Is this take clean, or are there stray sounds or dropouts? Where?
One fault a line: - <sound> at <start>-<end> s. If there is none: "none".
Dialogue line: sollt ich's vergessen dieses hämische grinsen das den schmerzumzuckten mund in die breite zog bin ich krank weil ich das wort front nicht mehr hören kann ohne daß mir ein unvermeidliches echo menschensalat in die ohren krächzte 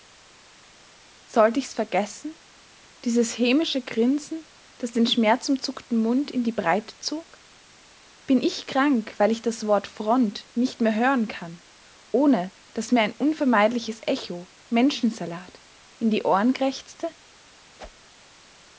- whoosh at 17.8-18.1 s